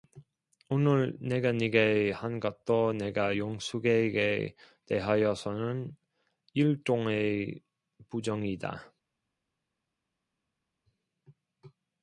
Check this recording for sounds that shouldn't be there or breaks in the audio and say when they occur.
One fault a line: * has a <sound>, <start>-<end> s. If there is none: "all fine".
all fine